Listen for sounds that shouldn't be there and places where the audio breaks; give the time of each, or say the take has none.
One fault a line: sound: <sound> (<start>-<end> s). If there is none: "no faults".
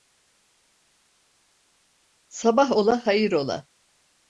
no faults